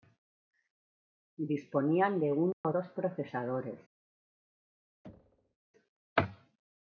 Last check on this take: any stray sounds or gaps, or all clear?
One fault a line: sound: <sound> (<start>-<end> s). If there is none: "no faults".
sound: dropout (2.5-2.6 s)
sound: thud (5.0-5.6 s)